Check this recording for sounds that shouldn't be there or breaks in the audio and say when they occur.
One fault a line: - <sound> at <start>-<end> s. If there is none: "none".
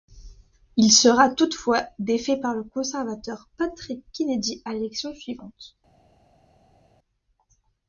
none